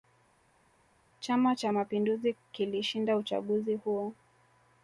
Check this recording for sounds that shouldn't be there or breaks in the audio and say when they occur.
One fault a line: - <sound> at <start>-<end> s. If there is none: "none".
none